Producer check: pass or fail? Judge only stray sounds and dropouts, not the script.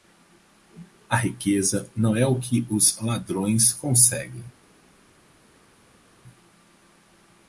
pass